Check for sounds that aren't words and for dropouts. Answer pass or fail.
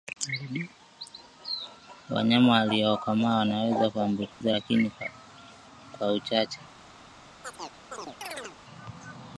fail